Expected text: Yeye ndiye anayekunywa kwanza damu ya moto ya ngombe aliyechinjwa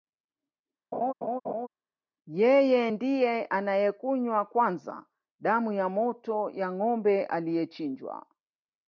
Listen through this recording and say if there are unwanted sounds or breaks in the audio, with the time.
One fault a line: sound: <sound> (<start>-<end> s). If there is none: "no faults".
sound: laugh (0.9-1.7 s)